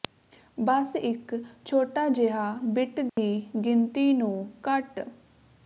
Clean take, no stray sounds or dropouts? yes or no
no